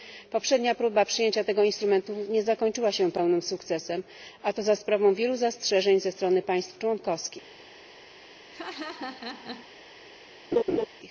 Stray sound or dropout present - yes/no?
yes